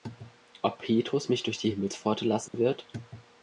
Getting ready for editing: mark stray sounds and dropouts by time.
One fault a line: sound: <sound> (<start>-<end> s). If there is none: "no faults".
sound: dropout (2.5-2.5 s)